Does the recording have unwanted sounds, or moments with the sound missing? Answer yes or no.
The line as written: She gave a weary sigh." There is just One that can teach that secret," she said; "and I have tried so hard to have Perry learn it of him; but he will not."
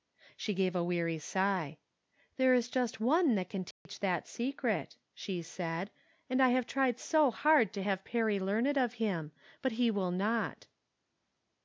yes